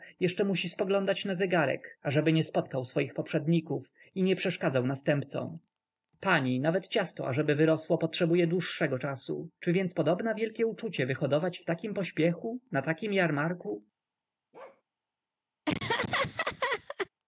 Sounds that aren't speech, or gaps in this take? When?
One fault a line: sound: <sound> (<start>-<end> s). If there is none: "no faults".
sound: bark (14.5-14.8 s)
sound: laugh (15.7-17.1 s)